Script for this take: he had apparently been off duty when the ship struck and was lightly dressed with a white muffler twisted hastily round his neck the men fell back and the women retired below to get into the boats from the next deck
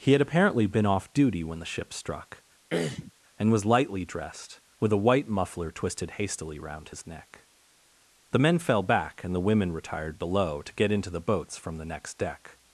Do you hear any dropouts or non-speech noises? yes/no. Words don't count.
yes